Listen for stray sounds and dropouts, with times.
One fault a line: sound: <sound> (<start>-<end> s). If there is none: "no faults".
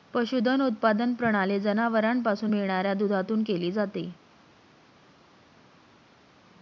no faults